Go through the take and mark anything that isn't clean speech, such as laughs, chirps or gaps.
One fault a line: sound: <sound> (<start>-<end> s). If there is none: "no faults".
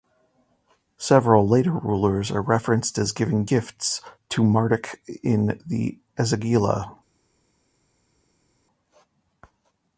no faults